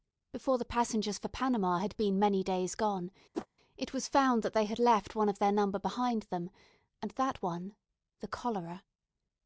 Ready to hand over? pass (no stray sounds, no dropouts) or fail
fail